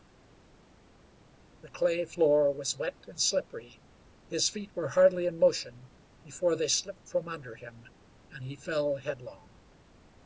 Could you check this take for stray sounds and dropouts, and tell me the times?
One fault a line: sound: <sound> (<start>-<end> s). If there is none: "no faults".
no faults